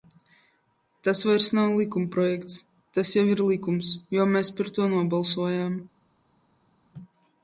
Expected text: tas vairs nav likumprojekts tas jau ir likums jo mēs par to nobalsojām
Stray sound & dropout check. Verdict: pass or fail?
pass